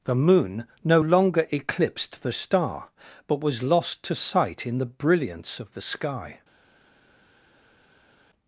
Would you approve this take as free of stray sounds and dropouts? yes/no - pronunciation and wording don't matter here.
yes